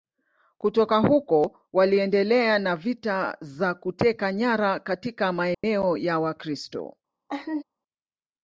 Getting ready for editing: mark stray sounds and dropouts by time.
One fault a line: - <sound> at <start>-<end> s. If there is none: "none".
- dropout at 5.5-5.6 s
- laugh at 7.3-7.6 s